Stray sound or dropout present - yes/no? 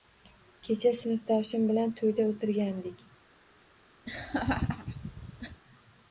yes